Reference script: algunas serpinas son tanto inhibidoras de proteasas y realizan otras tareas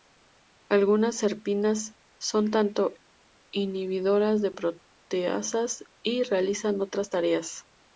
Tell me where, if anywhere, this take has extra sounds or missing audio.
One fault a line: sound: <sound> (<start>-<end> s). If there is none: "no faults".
no faults